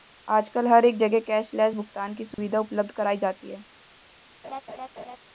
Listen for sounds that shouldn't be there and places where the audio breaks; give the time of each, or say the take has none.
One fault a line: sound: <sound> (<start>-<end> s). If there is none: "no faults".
sound: dropout (2.3-2.4 s)
sound: laugh (4.4-5.2 s)